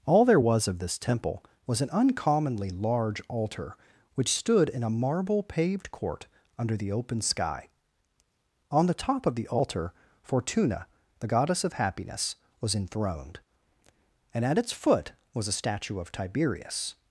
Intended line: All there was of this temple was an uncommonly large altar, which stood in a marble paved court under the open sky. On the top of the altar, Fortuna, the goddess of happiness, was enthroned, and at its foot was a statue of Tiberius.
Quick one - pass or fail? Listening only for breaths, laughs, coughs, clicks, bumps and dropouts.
pass